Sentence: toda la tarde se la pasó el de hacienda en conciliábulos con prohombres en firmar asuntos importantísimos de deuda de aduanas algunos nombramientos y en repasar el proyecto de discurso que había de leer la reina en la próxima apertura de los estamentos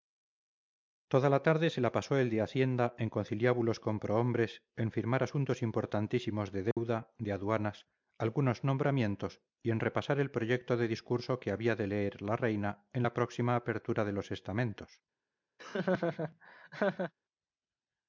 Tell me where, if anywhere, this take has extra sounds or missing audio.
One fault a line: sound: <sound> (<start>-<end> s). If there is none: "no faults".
sound: dropout (6.7-6.8 s)
sound: laugh (15.6-17.1 s)